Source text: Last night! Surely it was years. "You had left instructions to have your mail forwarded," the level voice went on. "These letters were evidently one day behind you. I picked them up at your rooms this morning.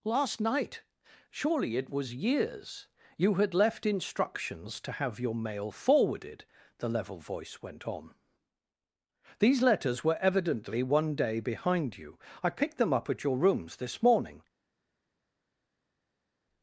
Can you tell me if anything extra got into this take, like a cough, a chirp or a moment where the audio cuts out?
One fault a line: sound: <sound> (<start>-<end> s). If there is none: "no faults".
no faults